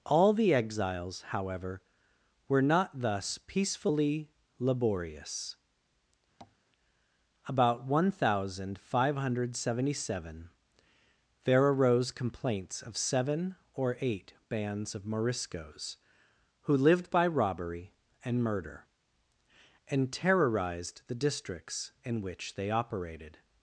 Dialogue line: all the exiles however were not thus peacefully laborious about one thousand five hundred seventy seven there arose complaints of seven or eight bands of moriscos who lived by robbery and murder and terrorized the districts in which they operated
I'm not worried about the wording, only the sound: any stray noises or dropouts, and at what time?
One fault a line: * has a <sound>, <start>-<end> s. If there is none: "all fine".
* has a tap, 6.4-6.6 s